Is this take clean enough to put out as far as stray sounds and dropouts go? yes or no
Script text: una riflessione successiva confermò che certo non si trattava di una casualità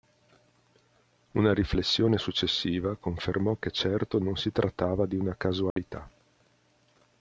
no